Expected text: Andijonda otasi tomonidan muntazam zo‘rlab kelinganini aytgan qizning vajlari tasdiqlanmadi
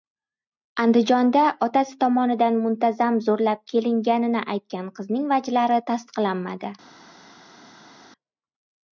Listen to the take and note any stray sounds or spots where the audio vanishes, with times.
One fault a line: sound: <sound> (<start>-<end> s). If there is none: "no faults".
no faults